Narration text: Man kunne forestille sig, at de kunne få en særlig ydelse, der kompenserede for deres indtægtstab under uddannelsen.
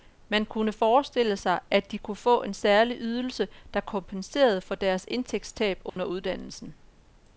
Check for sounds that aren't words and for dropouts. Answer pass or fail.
fail